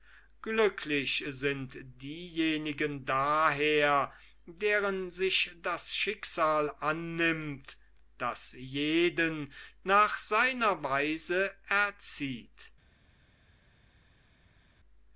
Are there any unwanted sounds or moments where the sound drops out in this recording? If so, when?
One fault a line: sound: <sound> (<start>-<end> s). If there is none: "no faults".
no faults